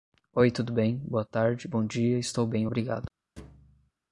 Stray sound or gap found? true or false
true